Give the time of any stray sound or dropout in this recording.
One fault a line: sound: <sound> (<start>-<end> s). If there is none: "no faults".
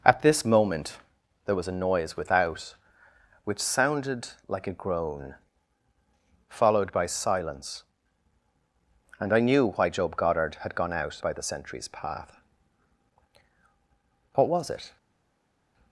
no faults